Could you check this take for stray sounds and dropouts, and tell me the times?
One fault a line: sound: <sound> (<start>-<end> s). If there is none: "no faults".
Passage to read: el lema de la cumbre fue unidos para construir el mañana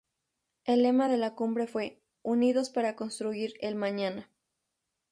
no faults